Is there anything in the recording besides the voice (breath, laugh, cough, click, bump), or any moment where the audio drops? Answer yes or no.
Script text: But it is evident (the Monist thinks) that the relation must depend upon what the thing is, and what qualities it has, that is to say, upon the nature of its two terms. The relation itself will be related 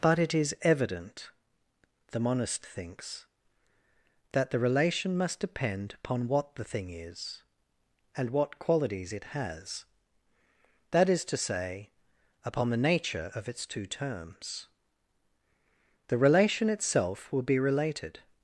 no